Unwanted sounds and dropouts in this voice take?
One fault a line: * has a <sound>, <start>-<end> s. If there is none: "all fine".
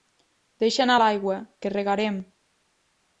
all fine